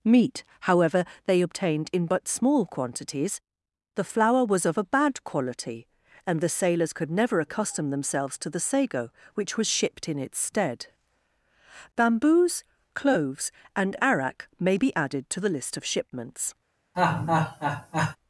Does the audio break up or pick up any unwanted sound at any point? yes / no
yes